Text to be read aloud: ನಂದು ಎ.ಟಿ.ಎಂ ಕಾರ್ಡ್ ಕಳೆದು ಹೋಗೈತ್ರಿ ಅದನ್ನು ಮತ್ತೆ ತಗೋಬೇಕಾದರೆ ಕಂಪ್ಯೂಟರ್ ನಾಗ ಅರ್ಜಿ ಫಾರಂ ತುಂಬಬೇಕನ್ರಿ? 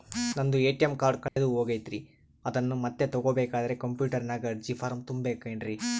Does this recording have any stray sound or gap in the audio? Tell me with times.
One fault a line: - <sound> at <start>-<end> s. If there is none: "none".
- dropout at 1.3-1.4 s